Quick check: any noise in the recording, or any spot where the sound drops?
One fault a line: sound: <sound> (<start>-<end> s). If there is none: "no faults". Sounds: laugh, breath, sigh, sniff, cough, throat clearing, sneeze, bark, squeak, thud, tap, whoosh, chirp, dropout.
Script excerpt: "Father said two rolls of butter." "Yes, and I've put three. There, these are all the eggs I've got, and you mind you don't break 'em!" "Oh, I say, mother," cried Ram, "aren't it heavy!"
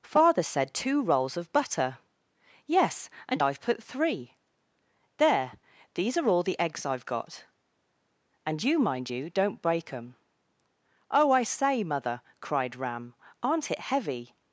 no faults